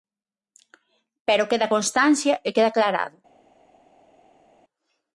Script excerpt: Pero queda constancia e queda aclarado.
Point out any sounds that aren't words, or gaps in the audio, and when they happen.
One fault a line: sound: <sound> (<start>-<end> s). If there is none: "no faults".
no faults